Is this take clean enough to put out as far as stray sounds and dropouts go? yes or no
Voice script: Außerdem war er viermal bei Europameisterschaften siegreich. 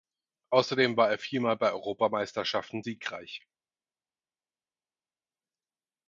yes